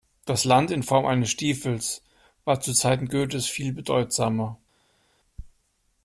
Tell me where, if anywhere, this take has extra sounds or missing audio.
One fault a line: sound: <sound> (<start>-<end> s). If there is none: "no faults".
no faults